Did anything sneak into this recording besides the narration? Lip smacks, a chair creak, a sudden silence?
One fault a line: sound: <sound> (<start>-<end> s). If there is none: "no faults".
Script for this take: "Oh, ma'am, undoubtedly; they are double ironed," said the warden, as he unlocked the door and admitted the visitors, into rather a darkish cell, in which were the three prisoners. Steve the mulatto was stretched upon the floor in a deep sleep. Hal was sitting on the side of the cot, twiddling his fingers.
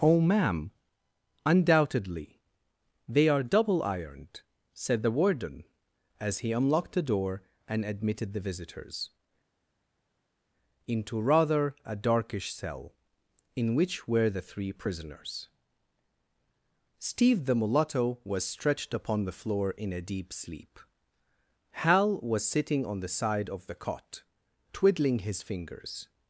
no faults